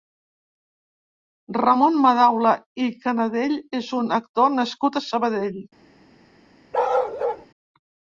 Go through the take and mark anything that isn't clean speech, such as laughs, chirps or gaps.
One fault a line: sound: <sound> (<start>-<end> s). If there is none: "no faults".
sound: bark (6.7-7.5 s)